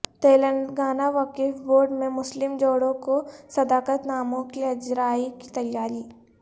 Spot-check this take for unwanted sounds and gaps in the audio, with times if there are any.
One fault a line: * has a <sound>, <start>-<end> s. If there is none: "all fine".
all fine